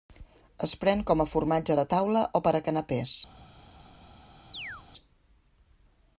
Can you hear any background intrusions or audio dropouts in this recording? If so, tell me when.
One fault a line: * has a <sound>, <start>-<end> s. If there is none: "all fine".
* has a chirp, 4.5-4.8 s